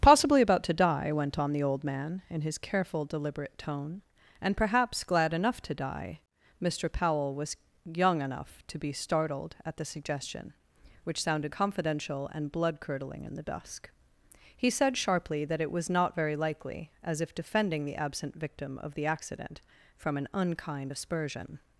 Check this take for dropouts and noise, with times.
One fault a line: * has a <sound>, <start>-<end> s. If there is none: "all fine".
all fine